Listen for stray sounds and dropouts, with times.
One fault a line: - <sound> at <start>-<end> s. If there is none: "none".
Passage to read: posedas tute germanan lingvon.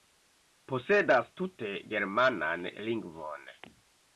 none